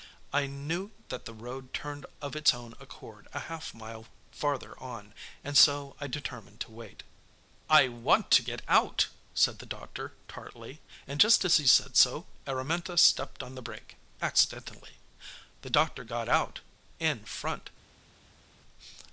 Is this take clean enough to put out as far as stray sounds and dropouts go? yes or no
yes